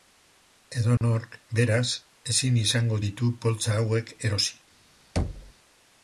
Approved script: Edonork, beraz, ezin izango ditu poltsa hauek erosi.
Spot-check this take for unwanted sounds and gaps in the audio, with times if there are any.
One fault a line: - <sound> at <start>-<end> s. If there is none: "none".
- dropout at 1.0-1.0 s
- thud at 5.2-5.5 s